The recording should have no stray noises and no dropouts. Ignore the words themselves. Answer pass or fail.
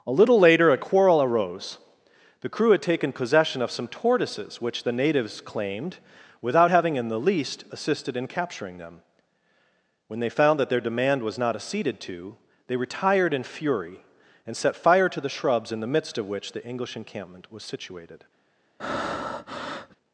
fail